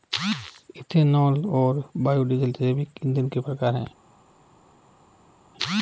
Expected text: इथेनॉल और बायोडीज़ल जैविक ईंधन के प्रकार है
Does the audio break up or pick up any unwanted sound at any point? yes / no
no